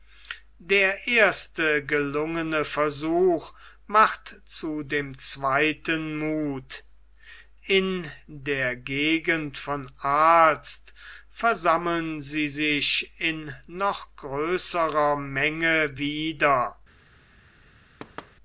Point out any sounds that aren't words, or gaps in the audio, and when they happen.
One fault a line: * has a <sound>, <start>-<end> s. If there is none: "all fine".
* has a thud, 18.0-18.3 s